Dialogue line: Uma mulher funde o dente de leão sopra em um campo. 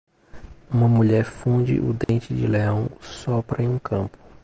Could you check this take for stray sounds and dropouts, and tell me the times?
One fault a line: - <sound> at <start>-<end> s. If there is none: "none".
- dropout at 2.0-2.1 s